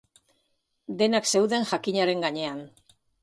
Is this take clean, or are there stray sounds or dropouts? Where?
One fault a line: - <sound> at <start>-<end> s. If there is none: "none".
none